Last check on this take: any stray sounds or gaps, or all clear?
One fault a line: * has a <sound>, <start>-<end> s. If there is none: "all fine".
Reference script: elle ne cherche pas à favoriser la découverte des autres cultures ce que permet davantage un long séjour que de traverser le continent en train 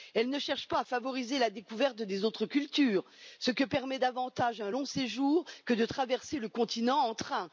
all fine